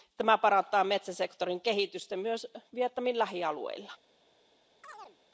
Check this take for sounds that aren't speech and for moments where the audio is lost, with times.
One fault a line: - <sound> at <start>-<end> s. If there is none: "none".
- chirp at 4.8-5.2 s